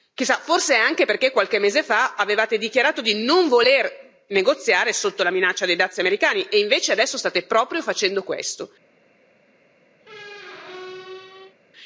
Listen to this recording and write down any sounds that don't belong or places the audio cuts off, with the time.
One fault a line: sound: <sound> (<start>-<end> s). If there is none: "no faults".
sound: squeak (10.0-11.6 s)